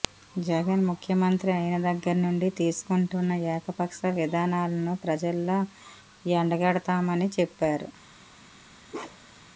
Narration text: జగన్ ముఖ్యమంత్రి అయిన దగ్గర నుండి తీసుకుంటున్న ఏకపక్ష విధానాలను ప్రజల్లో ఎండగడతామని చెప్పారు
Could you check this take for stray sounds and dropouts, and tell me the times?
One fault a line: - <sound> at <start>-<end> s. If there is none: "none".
- bark at 8.9-9.5 s